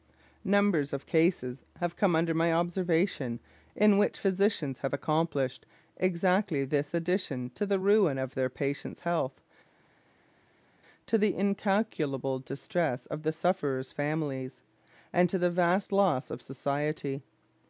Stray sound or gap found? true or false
false